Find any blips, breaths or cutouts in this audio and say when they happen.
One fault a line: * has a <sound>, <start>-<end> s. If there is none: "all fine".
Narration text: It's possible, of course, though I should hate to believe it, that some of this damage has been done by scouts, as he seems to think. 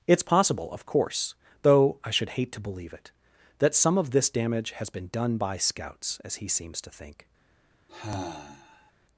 * has a sigh, 7.9-8.9 s